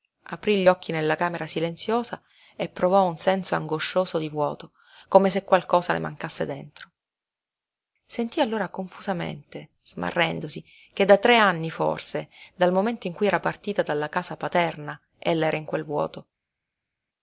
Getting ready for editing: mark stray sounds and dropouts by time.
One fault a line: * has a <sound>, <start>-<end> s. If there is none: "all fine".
all fine